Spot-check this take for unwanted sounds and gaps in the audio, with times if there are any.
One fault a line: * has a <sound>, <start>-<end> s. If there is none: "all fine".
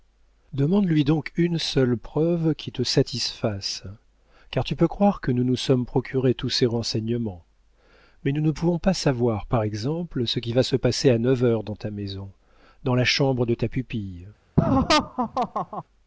* has a laugh, 14.6-15.8 s